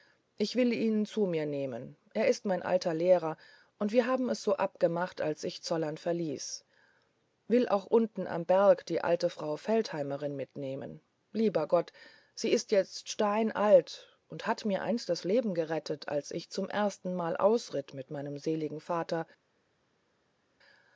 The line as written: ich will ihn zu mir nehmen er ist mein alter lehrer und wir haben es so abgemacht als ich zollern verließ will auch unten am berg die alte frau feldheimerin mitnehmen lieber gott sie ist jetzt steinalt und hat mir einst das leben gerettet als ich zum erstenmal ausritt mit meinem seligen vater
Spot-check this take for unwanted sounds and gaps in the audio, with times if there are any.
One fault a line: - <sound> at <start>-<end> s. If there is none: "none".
none